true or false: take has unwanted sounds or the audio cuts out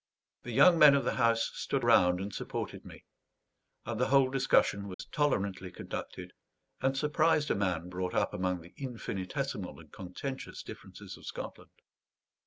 true